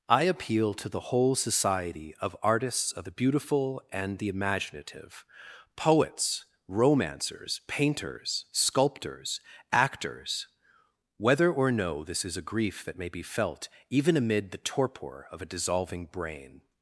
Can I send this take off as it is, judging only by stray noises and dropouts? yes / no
yes